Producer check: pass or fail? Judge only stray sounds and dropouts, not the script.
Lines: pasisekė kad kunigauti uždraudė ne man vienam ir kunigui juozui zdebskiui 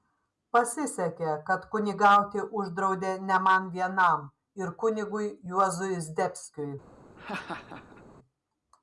fail